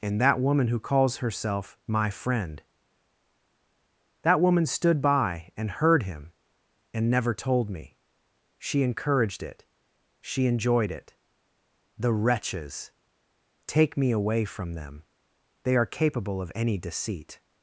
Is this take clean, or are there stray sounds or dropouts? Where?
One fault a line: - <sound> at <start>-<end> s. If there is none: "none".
none